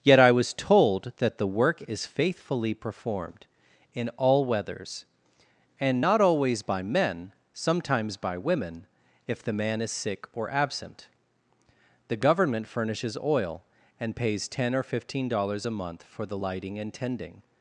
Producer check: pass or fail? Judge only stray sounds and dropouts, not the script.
pass